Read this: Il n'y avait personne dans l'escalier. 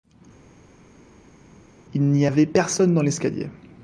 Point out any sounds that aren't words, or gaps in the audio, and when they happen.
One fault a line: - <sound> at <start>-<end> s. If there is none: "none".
none